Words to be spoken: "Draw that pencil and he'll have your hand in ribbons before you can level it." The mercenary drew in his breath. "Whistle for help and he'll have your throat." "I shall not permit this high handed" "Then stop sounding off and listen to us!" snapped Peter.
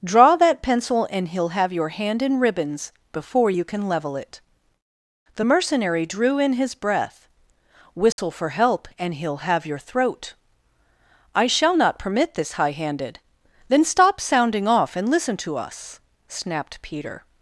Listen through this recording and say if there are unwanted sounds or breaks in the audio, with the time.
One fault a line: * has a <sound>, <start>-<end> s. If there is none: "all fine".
* has a dropout, 8.1-8.2 s